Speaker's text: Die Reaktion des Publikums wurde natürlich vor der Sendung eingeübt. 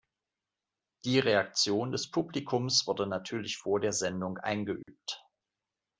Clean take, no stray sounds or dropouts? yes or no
no